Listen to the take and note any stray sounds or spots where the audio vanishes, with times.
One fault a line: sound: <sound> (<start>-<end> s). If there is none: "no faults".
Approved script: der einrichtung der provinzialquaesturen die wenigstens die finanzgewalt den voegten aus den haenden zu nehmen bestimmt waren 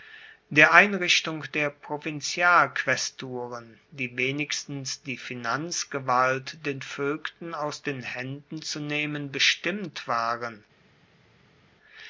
no faults